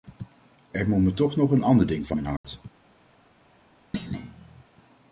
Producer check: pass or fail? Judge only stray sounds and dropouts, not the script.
fail